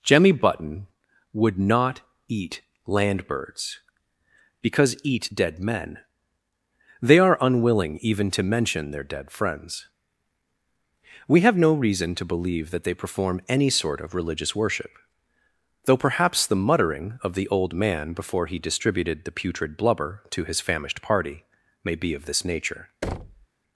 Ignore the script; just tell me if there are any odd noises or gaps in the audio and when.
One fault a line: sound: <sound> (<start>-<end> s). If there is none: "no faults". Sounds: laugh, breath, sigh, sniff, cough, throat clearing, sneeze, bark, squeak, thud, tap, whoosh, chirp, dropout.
sound: thud (23.0-23.5 s)